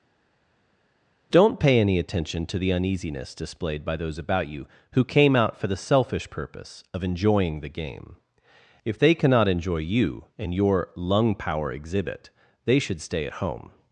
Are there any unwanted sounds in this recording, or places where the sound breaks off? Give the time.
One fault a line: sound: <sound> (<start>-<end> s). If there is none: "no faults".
no faults